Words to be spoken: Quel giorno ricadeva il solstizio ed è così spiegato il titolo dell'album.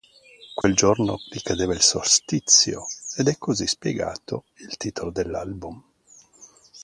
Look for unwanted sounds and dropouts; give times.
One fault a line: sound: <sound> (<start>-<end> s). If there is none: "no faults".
sound: dropout (0.6-0.6 s)